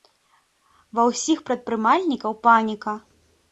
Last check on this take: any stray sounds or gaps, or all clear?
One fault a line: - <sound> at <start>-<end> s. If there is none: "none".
none